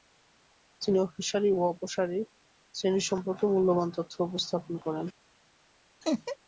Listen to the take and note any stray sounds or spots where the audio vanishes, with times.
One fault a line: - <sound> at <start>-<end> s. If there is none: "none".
- laugh at 6.0-6.4 s